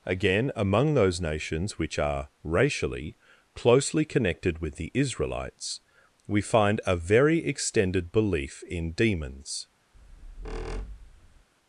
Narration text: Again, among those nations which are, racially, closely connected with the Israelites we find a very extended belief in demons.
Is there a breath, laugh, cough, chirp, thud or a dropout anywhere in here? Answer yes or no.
yes